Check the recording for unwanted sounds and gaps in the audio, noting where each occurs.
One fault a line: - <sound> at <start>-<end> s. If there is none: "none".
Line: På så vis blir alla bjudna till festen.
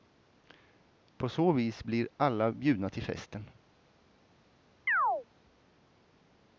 - chirp at 4.9-5.3 s